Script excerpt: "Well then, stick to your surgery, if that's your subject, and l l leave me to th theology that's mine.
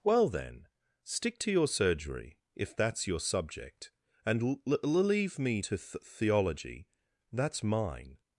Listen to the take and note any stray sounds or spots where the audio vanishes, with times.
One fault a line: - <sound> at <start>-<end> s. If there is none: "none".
none